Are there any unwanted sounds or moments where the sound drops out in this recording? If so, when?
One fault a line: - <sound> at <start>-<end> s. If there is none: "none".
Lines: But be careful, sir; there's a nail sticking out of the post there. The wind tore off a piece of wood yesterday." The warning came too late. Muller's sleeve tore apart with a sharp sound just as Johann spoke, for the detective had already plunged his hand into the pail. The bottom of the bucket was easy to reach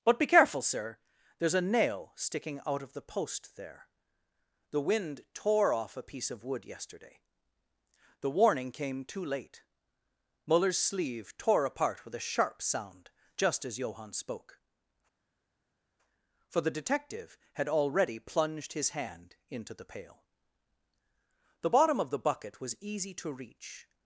none